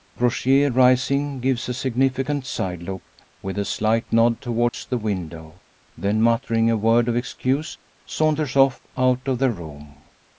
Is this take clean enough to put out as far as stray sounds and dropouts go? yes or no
no